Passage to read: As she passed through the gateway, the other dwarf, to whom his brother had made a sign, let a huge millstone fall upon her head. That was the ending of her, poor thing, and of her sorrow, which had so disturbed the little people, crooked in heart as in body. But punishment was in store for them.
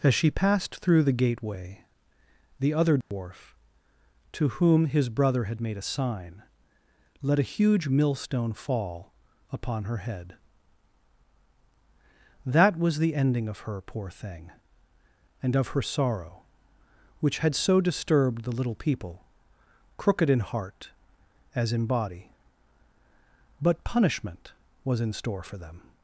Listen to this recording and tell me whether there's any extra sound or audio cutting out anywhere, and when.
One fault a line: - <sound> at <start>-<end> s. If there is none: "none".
- dropout at 3.0-3.1 s